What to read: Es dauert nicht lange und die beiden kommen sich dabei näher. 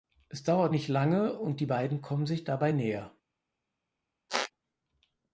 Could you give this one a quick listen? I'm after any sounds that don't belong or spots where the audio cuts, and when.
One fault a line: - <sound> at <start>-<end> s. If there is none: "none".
- squeak at 4.3-4.5 s